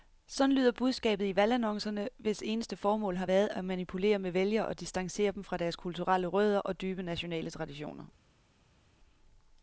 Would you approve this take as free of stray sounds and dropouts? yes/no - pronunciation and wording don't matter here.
yes